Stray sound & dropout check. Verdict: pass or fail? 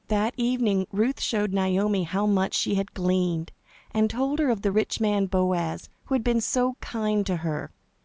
pass